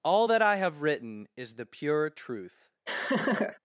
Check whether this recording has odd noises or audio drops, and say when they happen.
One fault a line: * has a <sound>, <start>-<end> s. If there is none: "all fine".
* has a laugh, 2.9-3.6 s